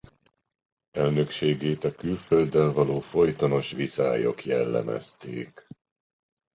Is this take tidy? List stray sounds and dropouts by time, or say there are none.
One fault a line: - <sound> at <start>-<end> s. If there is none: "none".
none